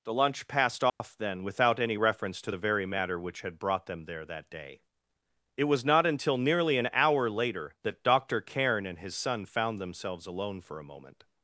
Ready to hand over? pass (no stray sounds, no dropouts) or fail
fail